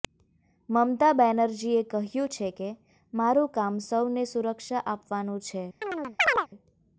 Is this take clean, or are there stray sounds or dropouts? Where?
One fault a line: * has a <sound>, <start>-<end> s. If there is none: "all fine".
* has a chirp, 5.8-6.5 s